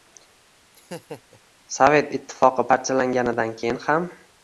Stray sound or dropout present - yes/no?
yes